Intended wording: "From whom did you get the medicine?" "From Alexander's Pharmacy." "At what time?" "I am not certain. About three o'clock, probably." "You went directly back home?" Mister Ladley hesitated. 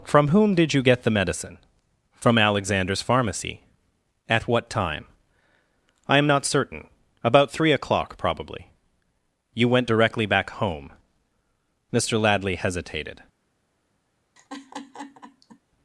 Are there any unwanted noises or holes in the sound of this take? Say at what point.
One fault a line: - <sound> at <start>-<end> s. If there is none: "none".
- laugh at 14.4-15.6 s